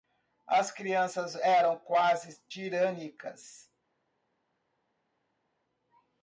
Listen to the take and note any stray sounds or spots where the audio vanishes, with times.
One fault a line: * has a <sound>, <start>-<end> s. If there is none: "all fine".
all fine